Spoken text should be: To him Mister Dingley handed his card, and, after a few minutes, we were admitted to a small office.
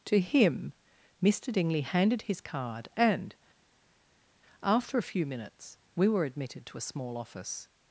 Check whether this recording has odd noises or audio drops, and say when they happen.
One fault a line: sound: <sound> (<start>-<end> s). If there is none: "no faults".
no faults